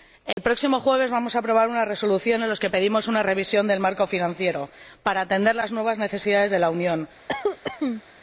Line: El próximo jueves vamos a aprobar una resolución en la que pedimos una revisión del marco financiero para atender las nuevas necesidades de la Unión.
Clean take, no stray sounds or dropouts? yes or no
no